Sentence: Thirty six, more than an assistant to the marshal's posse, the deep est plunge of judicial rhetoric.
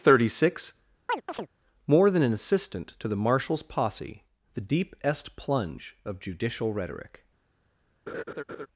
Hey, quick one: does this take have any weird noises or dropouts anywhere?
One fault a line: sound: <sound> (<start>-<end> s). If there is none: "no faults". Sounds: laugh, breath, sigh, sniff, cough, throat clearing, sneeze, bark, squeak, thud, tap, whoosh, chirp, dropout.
sound: chirp (1.1-1.5 s)
sound: laugh (8.1-8.7 s)